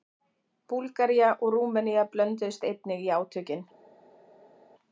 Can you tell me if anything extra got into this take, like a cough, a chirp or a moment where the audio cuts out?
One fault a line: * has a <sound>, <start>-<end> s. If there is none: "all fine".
all fine